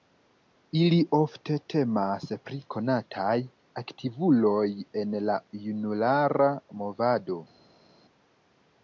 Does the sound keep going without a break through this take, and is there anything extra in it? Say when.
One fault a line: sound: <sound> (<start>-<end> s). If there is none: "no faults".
no faults